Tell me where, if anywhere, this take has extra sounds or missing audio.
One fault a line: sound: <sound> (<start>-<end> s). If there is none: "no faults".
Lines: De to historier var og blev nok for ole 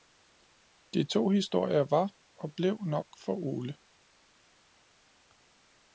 no faults